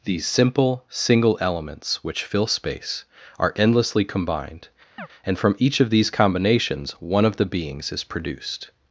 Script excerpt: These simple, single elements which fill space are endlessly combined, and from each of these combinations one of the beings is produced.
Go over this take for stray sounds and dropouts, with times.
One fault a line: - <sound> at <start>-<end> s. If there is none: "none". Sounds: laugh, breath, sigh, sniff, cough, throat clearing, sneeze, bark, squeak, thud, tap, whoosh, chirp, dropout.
- chirp at 5.0-5.1 s